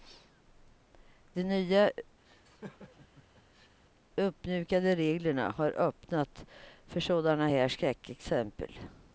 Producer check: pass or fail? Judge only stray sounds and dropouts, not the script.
fail